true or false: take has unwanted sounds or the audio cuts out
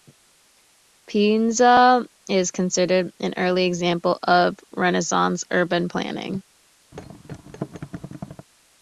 true